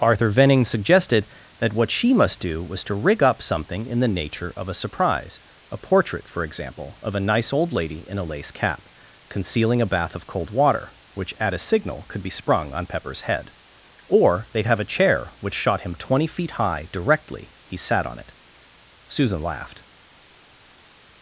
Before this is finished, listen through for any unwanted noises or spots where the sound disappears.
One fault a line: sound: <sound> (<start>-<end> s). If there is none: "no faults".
no faults